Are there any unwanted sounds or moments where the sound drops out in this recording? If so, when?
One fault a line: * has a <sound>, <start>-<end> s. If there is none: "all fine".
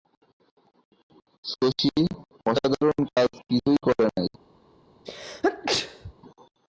* has a dropout, 3.1-3.2 s
* has a sneeze, 5.0-6.1 s